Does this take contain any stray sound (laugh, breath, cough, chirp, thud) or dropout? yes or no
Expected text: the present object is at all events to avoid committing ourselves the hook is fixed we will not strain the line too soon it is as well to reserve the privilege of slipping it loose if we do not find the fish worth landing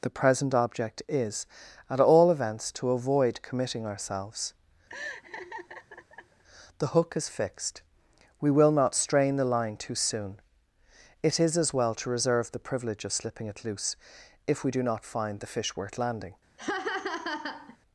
yes